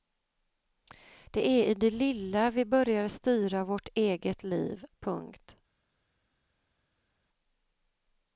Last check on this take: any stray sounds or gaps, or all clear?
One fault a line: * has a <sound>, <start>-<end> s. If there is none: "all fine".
all fine